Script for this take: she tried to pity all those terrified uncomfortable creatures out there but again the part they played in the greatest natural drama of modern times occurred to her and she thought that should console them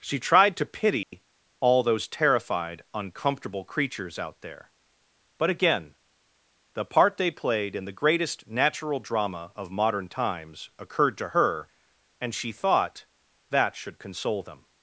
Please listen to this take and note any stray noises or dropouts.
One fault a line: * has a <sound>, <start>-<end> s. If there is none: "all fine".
* has a dropout, 1.0-1.1 s